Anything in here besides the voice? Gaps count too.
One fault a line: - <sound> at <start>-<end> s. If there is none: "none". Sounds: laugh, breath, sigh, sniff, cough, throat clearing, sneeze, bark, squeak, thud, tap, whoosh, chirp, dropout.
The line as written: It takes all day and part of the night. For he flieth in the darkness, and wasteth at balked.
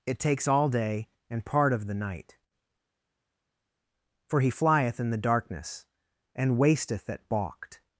none